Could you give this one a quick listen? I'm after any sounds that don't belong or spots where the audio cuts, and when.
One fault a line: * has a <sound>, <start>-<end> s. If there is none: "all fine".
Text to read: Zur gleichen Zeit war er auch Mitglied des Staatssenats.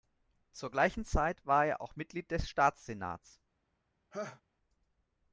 * has a laugh, 4.1-4.4 s